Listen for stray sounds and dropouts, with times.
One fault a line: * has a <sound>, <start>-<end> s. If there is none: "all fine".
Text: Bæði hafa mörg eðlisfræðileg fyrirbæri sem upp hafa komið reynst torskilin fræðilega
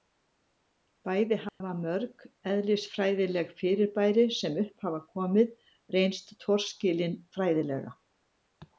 * has a dropout, 1.5-1.6 s